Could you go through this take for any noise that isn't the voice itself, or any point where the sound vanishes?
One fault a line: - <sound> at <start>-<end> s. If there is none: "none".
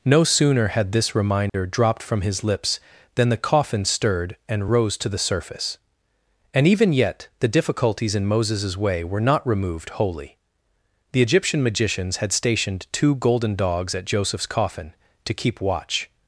- dropout at 1.5-1.5 s